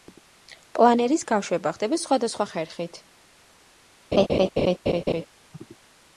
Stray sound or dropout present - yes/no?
yes